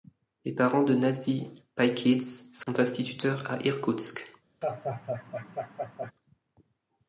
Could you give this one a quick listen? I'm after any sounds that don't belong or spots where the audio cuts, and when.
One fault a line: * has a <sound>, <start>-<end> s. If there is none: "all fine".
* has a dropout, 2.6-2.7 s
* has a laugh, 4.6-6.1 s